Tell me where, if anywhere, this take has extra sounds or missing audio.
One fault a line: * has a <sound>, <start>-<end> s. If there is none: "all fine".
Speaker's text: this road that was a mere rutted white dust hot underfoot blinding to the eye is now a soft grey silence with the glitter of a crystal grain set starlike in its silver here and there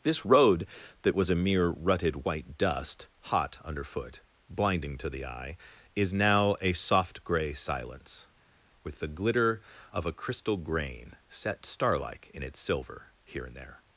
all fine